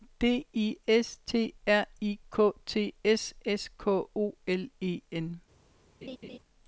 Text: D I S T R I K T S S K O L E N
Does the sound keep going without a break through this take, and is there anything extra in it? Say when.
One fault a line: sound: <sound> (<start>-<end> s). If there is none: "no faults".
sound: laugh (6.0-6.4 s)